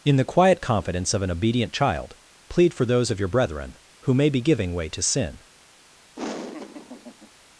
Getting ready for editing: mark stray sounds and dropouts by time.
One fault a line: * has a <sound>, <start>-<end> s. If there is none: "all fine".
* has a laugh, 6.2-7.3 s